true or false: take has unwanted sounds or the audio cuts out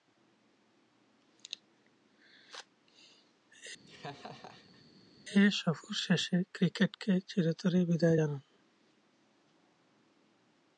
true